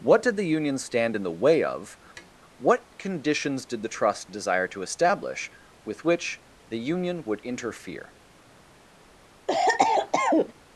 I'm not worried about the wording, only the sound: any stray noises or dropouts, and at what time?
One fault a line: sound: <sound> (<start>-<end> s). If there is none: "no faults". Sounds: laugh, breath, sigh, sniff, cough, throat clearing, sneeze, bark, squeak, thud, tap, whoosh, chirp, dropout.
sound: tap (2.2-2.3 s)
sound: cough (9.5-10.5 s)